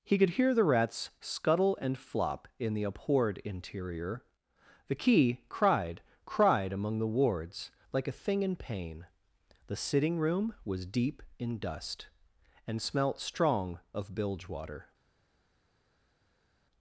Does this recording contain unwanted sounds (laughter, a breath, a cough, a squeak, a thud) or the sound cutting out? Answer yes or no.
no